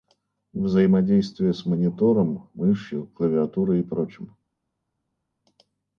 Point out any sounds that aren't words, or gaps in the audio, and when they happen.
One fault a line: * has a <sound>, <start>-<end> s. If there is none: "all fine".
all fine